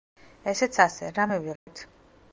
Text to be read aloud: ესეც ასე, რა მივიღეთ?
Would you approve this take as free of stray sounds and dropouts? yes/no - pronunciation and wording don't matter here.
no